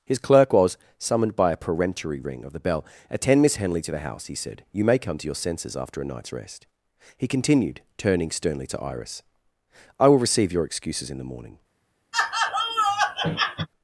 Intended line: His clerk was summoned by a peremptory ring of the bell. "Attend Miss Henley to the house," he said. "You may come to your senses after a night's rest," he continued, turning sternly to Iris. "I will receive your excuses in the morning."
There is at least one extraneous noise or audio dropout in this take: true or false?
true